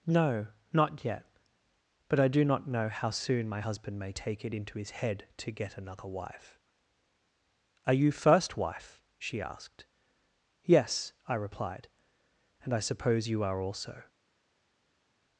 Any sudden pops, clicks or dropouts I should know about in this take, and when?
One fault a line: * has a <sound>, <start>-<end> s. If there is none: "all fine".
all fine